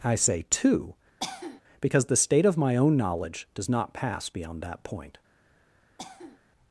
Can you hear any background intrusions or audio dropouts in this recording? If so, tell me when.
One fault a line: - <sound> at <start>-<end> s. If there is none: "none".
- cough at 1.2-1.6 s
- cough at 6.0-6.4 s